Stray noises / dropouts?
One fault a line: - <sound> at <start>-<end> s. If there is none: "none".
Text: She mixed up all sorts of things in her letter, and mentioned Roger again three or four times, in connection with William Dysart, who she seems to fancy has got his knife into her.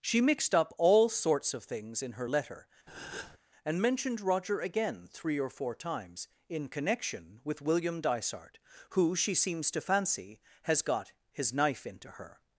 - breath at 2.9-3.4 s